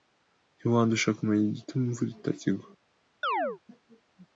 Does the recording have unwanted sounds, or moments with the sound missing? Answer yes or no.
yes